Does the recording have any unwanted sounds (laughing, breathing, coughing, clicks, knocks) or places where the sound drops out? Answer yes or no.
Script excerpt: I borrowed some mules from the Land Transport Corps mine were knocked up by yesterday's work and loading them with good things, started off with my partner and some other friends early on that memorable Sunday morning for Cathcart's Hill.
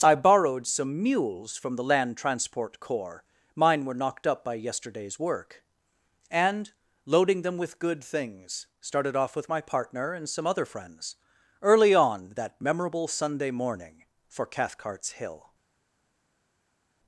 no